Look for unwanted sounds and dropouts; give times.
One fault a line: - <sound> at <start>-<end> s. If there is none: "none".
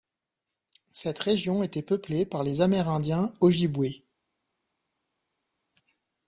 none